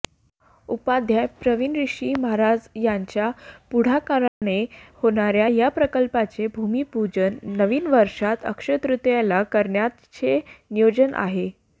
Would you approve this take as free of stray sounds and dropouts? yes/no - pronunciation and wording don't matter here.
no